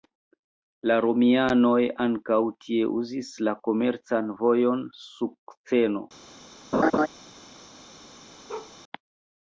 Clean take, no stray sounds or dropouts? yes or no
no